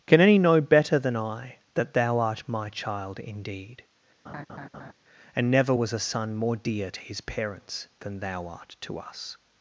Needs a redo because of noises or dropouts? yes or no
yes